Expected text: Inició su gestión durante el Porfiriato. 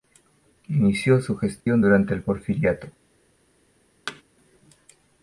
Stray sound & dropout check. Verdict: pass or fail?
fail